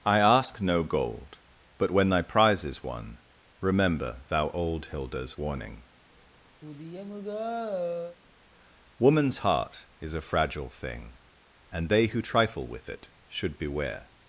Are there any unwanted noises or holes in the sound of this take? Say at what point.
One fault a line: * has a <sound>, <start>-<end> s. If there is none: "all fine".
* has a sigh, 6.6-8.2 s